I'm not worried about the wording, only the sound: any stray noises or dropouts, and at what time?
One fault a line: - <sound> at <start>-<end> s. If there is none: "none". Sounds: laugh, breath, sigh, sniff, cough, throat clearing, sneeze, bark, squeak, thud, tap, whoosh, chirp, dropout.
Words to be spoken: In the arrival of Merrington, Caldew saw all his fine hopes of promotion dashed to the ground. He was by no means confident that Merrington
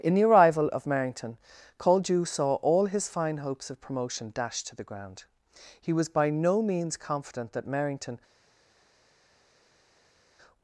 none